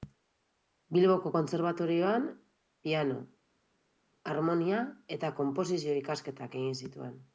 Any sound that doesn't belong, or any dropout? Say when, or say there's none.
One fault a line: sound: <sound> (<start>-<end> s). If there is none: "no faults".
no faults